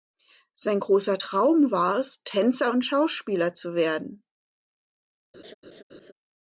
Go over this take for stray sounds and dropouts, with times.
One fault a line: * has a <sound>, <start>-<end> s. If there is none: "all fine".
* has a laugh, 5.3-6.1 s